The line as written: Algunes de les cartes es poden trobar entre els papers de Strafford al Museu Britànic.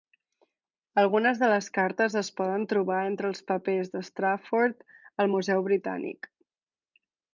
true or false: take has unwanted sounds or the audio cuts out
false